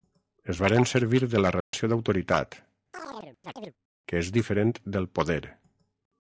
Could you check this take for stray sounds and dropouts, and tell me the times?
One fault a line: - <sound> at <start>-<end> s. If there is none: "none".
- dropout at 1.6-1.7 s
- chirp at 2.9-3.7 s